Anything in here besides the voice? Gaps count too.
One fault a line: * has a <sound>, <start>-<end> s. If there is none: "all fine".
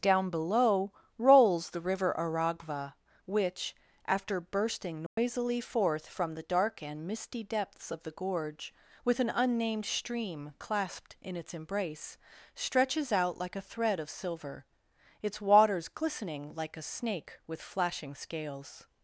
* has a dropout, 5.1-5.2 s